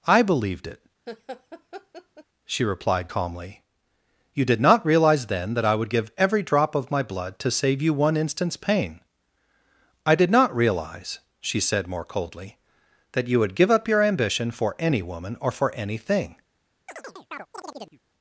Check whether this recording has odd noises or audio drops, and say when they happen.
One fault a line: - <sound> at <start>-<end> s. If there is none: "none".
- laugh at 1.1-2.2 s
- chirp at 16.9-18.0 s